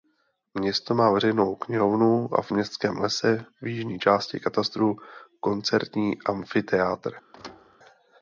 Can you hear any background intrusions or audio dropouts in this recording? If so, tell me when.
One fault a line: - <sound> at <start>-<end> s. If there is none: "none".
- thud at 7.3-7.8 s